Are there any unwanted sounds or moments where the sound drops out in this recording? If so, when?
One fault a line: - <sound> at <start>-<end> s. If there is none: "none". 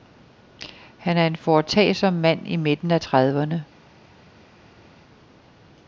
none